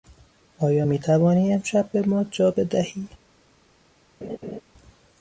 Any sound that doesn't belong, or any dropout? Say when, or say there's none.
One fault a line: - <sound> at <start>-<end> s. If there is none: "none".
- laugh at 4.2-4.6 s